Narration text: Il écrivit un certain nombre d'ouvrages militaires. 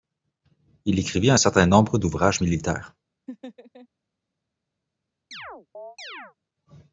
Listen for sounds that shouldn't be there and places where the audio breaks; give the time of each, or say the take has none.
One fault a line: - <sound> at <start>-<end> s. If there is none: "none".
- laugh at 3.3-3.9 s
- chirp at 5.3-6.3 s